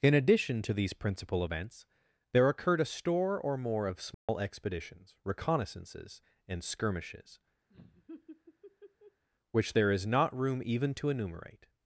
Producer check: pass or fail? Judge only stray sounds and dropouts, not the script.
fail